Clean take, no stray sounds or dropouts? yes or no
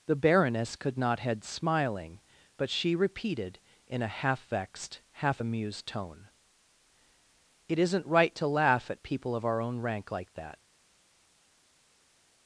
yes